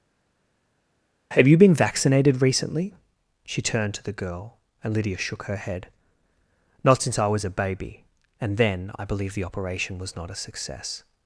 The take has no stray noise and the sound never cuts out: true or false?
true